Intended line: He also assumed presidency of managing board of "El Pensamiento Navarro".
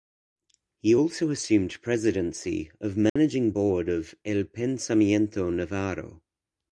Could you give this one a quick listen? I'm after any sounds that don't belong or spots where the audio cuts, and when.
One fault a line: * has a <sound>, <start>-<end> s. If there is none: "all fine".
* has a dropout, 3.1-3.2 s